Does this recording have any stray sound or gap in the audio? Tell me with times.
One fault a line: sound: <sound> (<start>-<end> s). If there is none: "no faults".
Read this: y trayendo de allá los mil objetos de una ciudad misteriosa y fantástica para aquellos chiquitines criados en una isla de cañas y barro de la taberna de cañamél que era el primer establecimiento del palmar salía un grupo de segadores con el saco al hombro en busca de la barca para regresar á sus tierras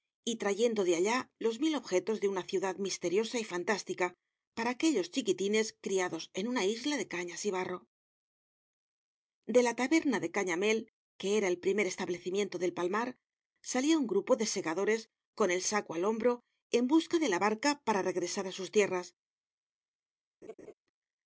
sound: laugh (20.4-20.7 s)